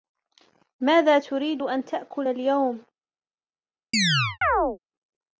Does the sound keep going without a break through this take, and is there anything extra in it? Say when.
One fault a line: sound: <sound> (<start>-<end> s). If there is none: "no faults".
sound: chirp (3.9-4.8 s)